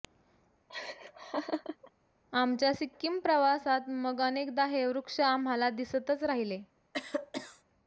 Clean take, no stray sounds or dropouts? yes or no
no